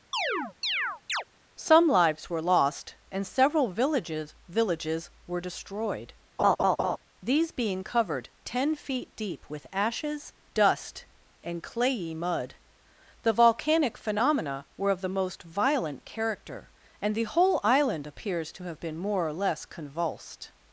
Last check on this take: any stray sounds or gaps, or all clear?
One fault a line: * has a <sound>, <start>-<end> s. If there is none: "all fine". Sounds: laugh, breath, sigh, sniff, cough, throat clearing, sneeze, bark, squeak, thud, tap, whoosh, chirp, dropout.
* has a chirp, 0.1-1.2 s
* has a laugh, 6.4-7.0 s